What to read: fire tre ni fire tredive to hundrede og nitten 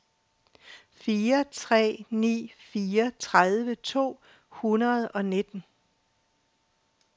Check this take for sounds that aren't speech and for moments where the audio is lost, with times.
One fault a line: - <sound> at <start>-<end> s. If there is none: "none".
none